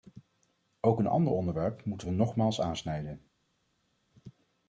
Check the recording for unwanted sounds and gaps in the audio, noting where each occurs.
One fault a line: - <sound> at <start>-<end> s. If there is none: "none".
none